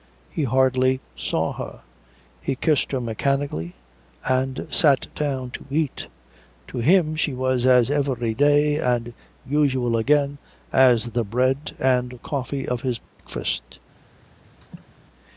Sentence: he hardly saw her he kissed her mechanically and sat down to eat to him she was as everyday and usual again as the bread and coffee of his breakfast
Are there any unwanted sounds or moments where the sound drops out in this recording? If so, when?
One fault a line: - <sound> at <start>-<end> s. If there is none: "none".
- dropout at 13.1-13.2 s
- laugh at 14.6-14.9 s